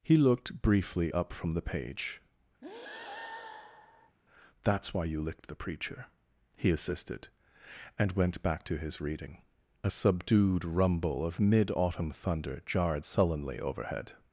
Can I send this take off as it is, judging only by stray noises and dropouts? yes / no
no